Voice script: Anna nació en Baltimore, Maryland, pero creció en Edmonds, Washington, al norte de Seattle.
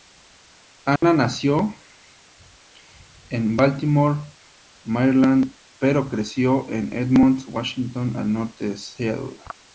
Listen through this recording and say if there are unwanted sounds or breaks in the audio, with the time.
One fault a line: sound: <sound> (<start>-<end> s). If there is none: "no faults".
sound: dropout (1.0-1.0 s)